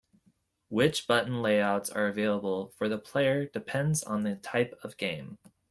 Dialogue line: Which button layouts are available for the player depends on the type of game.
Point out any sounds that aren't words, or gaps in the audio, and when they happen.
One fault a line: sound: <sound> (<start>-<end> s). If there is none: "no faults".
no faults